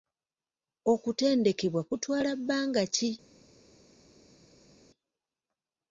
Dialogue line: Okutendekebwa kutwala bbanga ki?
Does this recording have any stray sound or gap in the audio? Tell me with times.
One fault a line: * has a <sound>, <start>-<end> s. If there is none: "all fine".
all fine